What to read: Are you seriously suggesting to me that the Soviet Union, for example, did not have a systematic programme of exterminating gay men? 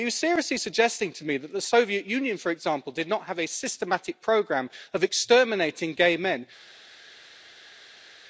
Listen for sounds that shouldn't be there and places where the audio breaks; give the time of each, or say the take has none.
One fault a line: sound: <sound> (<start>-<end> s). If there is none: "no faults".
no faults